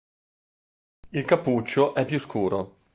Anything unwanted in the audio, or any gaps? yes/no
no